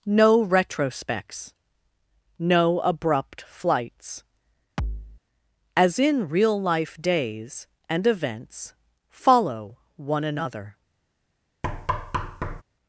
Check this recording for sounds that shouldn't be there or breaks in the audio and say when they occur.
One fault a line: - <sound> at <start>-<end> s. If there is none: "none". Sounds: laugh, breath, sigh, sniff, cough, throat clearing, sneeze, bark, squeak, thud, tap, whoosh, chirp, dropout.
- thud at 4.8-5.2 s
- thud at 11.6-12.6 s